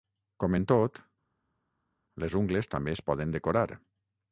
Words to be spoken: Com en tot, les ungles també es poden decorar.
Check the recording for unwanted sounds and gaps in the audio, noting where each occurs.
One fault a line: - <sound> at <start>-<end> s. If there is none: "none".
none